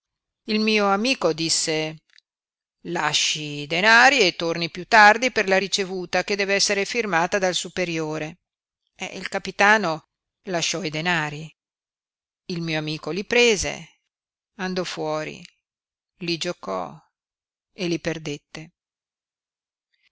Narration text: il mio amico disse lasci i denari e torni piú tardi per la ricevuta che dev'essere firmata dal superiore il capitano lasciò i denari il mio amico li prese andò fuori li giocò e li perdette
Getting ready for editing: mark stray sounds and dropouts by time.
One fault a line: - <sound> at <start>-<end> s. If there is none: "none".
none